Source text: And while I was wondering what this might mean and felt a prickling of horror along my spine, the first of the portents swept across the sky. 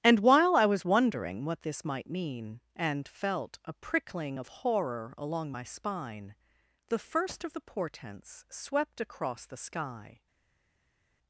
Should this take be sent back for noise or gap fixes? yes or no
no